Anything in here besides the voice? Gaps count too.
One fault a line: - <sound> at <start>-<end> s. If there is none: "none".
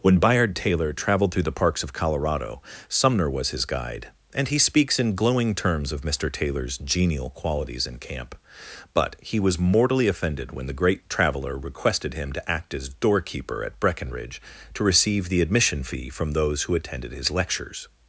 none